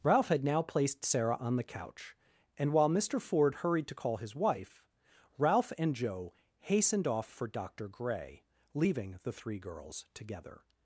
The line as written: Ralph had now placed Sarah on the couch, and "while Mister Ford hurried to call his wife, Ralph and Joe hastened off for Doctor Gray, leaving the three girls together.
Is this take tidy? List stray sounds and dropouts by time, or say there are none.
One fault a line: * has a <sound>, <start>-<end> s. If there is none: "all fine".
all fine